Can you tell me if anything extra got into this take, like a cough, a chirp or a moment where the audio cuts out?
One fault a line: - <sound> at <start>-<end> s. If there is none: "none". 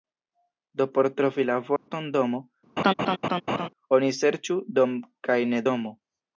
- dropout at 1.8-1.9 s
- laugh at 2.8-3.7 s